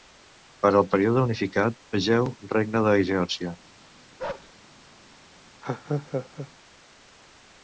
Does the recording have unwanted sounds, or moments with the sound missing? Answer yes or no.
yes